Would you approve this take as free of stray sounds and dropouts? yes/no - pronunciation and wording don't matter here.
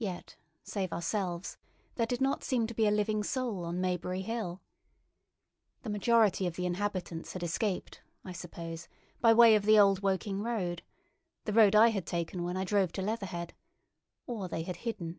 yes